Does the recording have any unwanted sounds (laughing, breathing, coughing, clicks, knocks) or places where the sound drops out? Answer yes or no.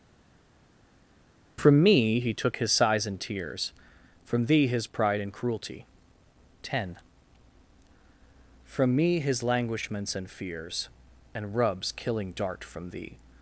no